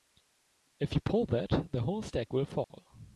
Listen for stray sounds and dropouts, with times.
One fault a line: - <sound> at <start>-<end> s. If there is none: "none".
- dropout at 2.6-2.7 s